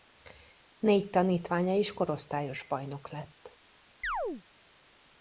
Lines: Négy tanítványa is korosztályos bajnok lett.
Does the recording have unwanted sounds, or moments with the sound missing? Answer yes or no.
yes